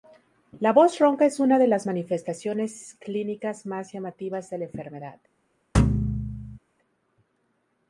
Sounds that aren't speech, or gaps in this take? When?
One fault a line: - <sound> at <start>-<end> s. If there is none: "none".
- thud at 5.7-6.6 s